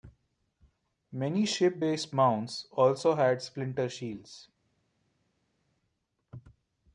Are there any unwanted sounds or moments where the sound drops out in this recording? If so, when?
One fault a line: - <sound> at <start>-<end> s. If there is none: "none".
none